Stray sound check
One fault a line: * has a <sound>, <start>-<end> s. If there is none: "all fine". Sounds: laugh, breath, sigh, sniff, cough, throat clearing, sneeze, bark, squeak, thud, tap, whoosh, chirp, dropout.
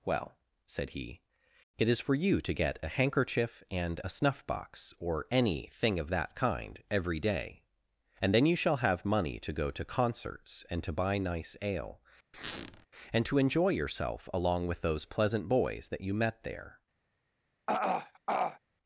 * has a squeak, 12.3-12.9 s
* has a throat clearing, 17.7-18.6 s